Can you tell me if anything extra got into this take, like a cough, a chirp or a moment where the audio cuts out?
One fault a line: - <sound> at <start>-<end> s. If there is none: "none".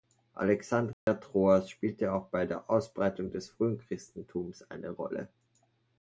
- dropout at 0.9-1.1 s